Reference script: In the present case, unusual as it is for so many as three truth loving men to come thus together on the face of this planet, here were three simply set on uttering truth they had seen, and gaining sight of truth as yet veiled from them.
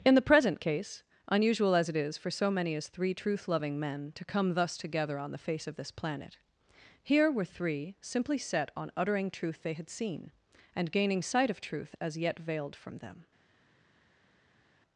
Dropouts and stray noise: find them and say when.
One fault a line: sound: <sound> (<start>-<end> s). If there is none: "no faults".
no faults